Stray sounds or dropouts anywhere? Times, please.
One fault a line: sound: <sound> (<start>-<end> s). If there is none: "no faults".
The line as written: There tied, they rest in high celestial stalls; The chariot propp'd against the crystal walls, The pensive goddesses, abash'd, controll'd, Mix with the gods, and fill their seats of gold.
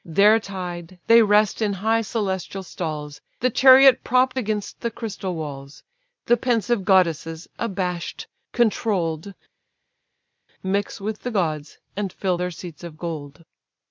no faults